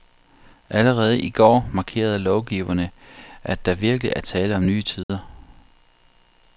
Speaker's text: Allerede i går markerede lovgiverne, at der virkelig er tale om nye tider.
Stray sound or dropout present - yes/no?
yes